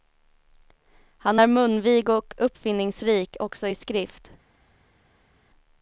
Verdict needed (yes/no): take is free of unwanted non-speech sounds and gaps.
yes